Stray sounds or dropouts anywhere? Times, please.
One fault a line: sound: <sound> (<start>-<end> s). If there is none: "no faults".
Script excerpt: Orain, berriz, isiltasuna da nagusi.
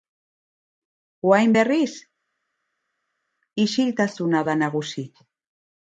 no faults